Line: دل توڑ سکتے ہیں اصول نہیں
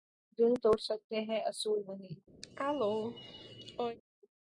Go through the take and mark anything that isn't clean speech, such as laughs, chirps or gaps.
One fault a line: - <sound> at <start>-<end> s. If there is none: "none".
- cough at 2.4-4.0 s